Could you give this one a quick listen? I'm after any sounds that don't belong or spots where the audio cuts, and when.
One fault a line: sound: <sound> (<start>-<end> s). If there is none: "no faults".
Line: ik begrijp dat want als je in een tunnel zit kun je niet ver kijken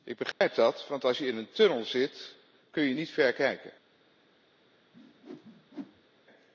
sound: dropout (0.3-0.4 s)
sound: whoosh (4.9-6.1 s)